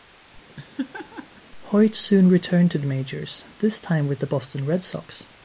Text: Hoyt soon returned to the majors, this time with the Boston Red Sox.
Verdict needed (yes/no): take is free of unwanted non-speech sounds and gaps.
no